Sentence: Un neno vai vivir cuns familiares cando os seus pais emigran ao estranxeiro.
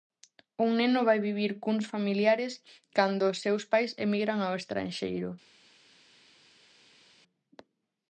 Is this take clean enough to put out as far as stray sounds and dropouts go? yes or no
yes